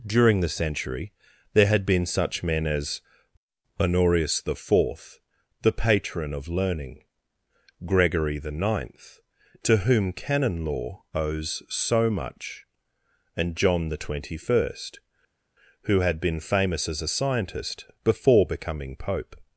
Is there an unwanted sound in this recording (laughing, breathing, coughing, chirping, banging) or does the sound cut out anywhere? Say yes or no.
no